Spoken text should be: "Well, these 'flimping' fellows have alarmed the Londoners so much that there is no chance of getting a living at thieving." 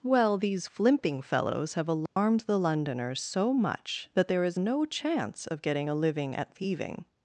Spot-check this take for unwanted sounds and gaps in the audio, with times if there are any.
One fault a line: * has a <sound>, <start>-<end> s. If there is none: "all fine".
* has a dropout, 2.1-2.2 s